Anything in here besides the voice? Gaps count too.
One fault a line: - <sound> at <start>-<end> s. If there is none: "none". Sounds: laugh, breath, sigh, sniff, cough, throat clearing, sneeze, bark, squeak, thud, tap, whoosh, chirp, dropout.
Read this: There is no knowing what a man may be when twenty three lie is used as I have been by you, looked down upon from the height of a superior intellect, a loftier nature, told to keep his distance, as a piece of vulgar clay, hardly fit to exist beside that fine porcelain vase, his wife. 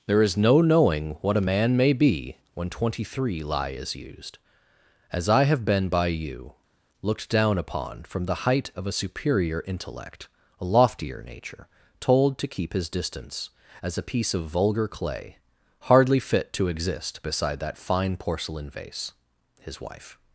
none